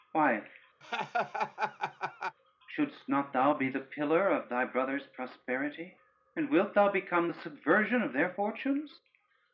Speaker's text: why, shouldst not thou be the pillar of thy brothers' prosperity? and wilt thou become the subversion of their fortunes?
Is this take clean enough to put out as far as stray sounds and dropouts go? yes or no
no